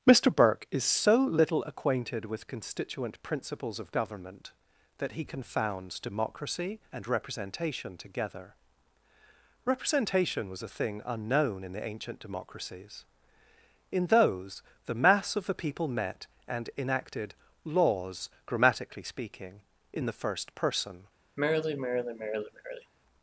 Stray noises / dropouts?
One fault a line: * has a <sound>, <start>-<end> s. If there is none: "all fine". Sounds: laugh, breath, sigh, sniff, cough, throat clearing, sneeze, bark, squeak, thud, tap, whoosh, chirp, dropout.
* has a sigh, 21.4-22.9 s